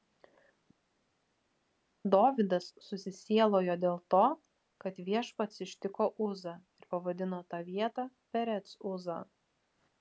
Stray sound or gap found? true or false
false